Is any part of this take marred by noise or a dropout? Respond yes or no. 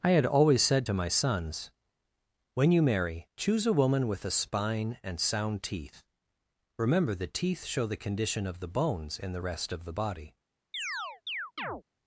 yes